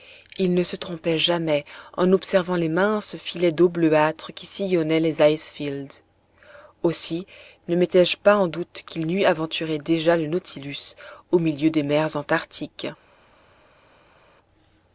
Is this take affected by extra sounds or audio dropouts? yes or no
no